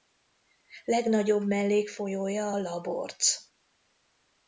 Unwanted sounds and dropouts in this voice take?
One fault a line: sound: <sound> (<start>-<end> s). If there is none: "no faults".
no faults